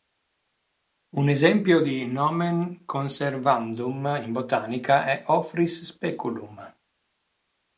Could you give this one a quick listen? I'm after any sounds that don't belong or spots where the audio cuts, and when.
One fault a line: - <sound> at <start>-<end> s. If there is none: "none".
none